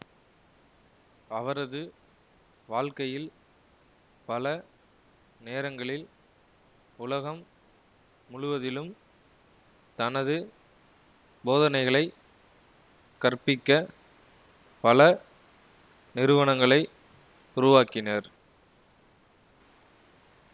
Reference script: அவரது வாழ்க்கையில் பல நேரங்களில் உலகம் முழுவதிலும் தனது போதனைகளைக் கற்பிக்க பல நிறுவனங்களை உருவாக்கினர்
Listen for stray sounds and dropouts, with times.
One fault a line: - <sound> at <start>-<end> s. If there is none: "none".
none